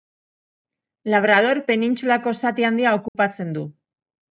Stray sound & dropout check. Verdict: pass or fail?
fail